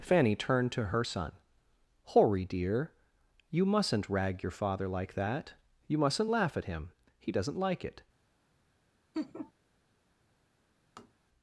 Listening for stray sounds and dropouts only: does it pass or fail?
fail